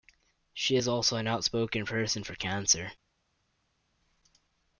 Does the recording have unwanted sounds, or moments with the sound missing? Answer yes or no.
no